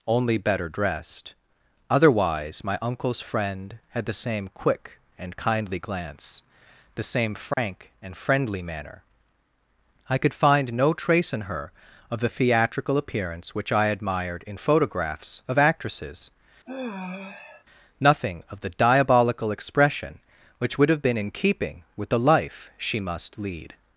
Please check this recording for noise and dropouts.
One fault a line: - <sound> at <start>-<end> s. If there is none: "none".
- dropout at 7.5-7.6 s
- sigh at 16.7-17.6 s